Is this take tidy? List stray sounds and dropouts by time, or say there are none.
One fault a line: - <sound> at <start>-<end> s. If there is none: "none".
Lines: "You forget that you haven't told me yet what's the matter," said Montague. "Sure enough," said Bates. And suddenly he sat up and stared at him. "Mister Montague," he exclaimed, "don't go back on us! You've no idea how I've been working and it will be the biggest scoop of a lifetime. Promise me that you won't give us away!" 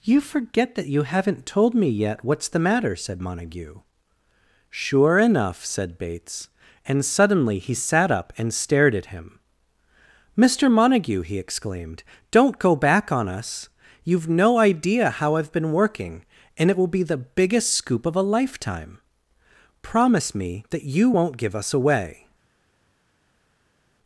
none